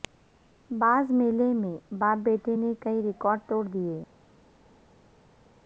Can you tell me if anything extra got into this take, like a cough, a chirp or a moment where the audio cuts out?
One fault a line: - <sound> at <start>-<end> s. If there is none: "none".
none